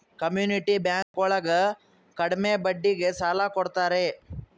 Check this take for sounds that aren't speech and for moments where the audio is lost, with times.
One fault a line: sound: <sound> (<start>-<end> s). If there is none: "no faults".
sound: dropout (1.0-1.1 s)